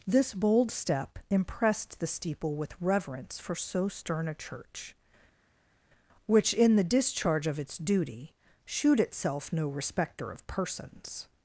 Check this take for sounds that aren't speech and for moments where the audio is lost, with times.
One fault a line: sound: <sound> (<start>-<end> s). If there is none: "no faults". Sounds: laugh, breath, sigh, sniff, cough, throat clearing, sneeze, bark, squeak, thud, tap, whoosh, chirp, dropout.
no faults